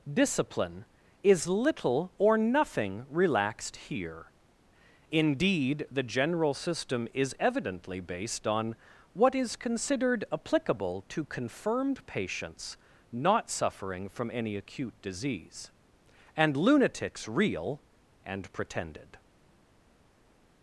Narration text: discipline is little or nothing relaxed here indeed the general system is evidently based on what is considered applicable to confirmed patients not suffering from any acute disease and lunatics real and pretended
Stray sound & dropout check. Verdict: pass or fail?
pass